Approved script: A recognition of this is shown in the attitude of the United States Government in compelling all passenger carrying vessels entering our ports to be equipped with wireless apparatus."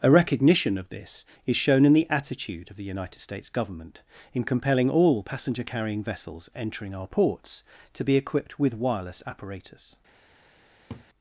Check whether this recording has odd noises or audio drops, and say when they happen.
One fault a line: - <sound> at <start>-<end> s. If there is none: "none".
- laugh at 10.9-11.1 s